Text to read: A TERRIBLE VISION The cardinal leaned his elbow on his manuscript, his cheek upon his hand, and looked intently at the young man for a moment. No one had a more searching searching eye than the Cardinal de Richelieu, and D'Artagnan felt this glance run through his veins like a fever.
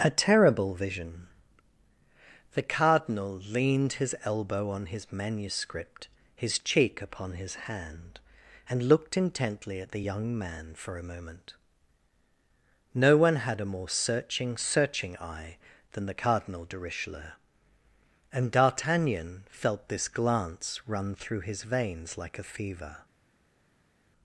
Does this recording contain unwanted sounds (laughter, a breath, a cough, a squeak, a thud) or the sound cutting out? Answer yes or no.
no